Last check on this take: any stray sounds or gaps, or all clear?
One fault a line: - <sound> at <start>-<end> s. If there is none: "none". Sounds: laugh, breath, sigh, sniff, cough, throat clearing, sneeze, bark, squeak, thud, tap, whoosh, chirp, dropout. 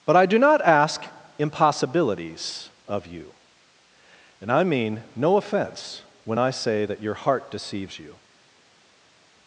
none